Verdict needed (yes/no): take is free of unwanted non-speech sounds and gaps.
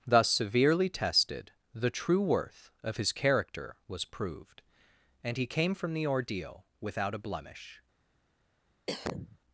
no